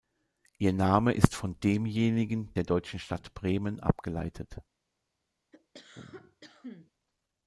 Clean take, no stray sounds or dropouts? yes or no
no